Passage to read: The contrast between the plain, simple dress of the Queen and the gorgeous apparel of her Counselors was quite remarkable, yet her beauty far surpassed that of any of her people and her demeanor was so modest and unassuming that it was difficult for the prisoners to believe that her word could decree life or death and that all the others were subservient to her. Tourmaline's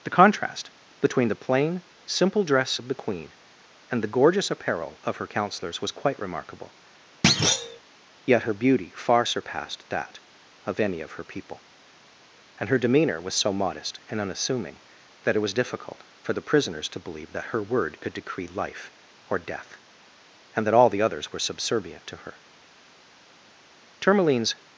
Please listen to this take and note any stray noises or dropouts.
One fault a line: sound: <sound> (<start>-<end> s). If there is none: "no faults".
sound: thud (7.2-7.8 s)